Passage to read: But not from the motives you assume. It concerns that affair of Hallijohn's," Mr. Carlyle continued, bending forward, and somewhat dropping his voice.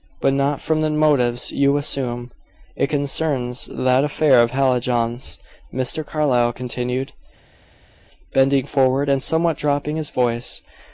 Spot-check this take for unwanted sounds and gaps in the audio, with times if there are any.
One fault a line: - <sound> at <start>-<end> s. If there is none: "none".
none